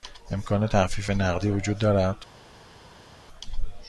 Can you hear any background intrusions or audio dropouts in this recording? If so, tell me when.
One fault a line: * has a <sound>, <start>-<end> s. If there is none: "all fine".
all fine